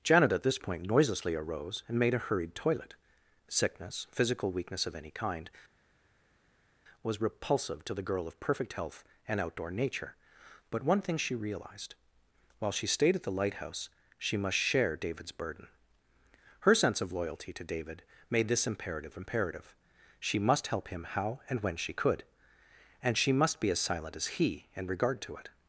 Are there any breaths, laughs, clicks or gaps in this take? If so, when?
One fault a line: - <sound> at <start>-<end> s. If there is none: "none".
none